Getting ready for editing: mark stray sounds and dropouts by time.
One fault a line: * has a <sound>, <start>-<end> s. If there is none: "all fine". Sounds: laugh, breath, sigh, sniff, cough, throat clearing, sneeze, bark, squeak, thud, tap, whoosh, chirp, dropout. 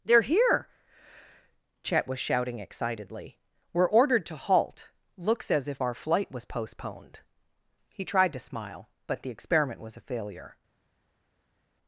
all fine